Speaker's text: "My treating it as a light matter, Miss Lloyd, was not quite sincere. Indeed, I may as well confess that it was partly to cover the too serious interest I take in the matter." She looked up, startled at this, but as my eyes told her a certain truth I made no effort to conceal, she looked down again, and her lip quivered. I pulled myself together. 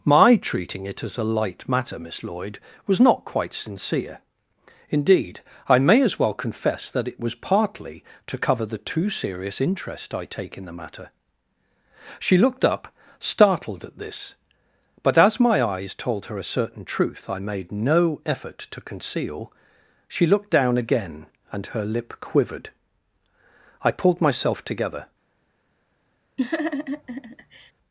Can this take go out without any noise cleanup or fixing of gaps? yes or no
no